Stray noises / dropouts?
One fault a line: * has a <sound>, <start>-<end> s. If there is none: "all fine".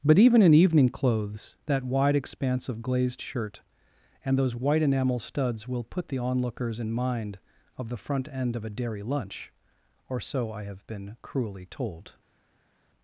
all fine